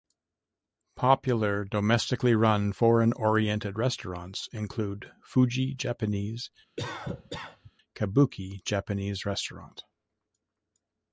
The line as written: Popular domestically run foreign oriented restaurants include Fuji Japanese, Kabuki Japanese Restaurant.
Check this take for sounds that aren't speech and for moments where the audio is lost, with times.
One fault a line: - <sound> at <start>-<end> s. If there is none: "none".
- cough at 6.8-7.7 s